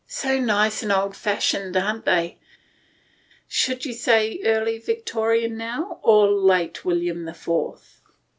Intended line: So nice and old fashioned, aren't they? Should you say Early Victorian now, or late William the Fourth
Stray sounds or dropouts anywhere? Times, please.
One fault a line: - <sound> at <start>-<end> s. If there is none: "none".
none